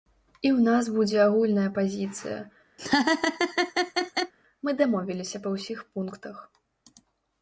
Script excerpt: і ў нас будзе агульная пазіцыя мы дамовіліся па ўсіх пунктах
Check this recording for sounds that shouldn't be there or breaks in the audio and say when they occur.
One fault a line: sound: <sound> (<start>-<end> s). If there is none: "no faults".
sound: laugh (2.8-4.3 s)